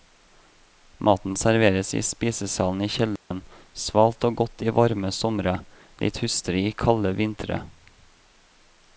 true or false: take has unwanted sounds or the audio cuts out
true